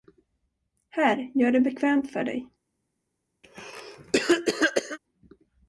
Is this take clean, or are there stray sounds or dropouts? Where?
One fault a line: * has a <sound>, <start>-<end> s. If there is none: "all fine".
* has a cough, 3.4-5.0 s